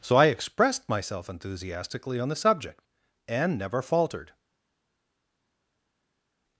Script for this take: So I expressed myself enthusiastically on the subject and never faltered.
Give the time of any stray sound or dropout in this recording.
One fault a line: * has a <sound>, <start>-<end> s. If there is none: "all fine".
all fine